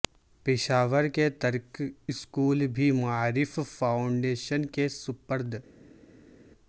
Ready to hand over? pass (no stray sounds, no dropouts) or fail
pass